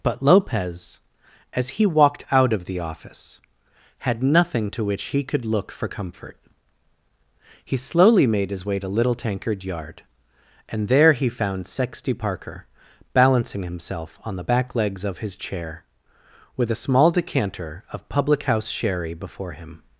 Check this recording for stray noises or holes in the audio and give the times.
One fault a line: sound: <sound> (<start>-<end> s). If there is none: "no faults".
no faults